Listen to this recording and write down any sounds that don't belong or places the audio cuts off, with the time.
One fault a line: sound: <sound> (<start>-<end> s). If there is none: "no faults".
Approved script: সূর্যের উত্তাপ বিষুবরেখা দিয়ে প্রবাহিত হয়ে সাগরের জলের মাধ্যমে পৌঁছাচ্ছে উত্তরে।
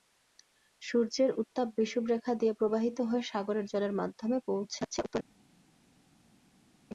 no faults